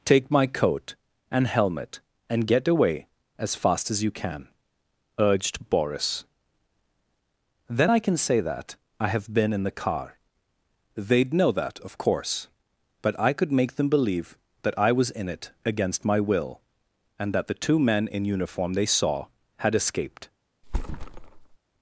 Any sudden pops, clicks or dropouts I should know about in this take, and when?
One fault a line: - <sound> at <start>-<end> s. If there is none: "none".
- thud at 20.6-21.6 s